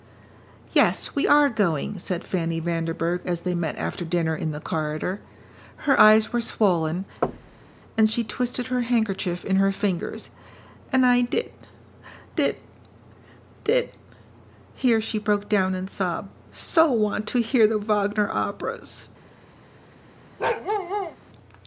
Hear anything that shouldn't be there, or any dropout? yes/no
yes